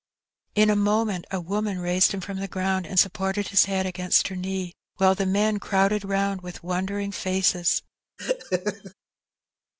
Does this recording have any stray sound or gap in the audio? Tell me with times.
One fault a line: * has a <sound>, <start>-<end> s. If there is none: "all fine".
* has a laugh, 8.2-8.9 s